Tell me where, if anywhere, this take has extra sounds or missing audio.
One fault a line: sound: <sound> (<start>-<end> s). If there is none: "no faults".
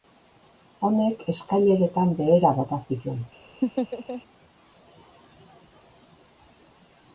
sound: laugh (3.6-4.2 s)